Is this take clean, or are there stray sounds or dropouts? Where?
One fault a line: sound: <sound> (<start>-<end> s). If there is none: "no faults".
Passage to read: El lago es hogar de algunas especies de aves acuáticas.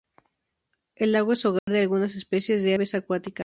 sound: dropout (1.6-1.7 s)